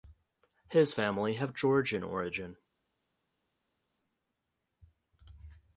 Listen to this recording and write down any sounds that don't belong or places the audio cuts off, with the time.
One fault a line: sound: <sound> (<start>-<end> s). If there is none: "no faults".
no faults